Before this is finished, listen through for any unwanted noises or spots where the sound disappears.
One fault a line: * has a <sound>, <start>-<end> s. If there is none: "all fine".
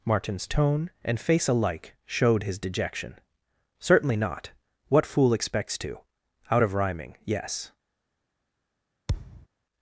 * has a thud, 9.1-9.5 s